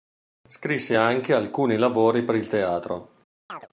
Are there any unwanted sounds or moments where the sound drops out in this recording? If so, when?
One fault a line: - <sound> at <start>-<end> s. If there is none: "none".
- chirp at 3.5-3.7 s